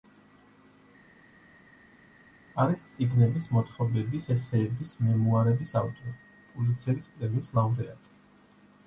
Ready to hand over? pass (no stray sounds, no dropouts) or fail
pass